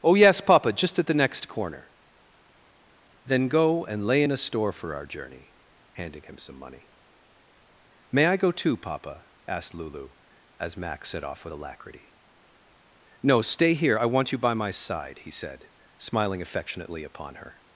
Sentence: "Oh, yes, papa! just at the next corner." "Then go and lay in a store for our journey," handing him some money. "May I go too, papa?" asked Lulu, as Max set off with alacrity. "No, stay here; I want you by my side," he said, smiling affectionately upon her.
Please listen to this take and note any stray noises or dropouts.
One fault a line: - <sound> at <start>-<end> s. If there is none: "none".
none